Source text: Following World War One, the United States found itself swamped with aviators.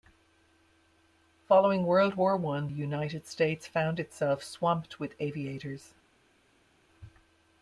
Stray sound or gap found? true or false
false